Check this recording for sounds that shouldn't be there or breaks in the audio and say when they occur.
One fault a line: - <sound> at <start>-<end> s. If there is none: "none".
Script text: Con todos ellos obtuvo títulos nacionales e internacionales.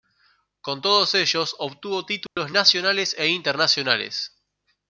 - dropout at 2.3-2.4 s